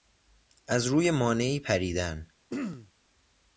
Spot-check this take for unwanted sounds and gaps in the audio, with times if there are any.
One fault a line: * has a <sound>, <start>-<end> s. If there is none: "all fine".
* has a throat clearing, 2.5-2.9 s